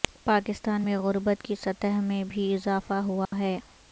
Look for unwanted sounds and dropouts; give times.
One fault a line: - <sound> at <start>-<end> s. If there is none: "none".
- dropout at 3.3-3.3 s